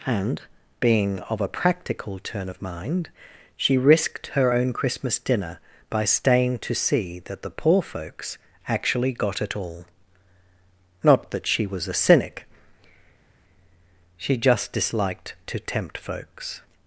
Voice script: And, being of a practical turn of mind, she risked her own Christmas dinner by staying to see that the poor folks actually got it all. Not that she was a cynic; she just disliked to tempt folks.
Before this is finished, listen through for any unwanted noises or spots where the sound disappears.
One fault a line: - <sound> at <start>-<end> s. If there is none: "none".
none